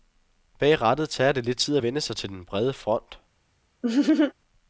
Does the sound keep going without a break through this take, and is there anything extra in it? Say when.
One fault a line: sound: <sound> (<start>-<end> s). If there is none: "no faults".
sound: laugh (3.8-4.3 s)